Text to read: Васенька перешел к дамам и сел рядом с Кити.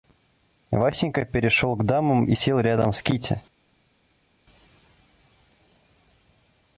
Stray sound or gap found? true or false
false